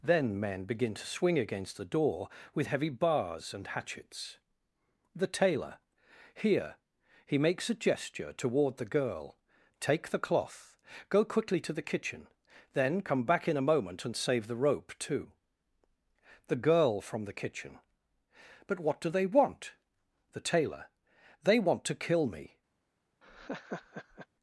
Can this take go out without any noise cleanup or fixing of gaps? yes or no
no